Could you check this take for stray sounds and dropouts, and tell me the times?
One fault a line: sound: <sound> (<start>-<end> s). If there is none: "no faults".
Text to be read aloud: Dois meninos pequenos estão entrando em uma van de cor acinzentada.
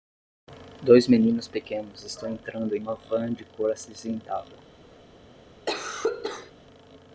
sound: cough (5.7-6.5 s)